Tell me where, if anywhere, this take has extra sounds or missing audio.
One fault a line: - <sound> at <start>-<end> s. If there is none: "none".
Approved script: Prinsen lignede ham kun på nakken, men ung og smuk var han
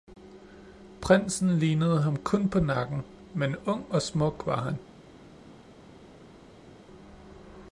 none